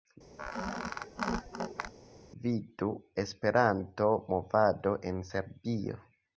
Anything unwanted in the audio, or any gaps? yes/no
yes